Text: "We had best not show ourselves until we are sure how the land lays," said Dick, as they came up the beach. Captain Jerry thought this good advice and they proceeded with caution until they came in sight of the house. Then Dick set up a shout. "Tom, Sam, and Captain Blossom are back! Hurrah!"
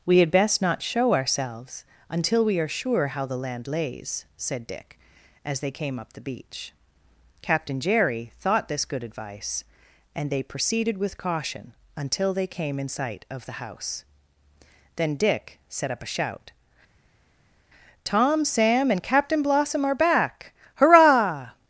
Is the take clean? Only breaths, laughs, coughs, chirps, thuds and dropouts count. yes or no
yes